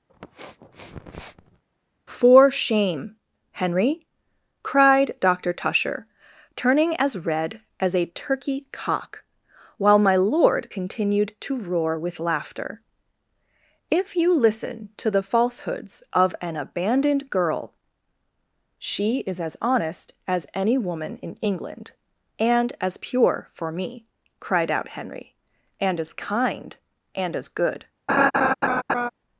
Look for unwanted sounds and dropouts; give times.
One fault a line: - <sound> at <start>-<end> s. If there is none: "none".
- sniff at 0.1-1.6 s
- laugh at 28.1-29.1 s